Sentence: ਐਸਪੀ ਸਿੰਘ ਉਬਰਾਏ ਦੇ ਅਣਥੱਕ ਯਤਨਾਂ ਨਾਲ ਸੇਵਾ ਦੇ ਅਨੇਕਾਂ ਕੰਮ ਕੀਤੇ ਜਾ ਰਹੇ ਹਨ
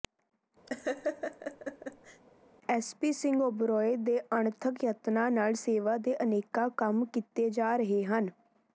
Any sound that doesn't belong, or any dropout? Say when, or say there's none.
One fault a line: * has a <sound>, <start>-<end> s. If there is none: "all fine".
* has a laugh, 0.7-2.2 s